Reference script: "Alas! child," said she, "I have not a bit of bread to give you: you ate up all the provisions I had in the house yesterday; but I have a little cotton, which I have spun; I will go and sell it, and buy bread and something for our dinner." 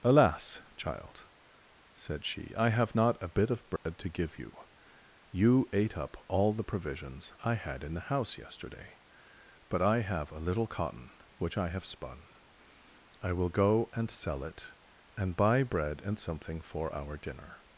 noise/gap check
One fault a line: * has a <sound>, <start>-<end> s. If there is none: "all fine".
* has a dropout, 3.8-3.9 s